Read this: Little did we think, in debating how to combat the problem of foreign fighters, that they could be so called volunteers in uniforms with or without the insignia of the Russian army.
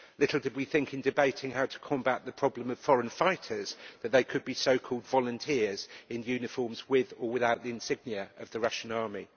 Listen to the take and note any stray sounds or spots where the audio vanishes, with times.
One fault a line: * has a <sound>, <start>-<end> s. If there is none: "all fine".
all fine